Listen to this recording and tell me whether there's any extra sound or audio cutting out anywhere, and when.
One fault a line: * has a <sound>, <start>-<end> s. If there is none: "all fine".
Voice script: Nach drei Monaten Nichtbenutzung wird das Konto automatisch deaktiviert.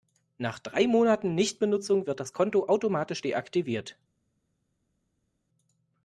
all fine